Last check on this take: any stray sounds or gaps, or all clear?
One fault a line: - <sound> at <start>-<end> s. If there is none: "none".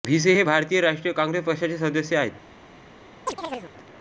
- chirp at 3.3-3.7 s